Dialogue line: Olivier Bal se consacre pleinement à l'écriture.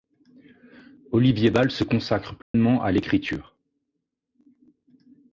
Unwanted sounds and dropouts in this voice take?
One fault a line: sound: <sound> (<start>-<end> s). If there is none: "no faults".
sound: dropout (2.4-2.5 s)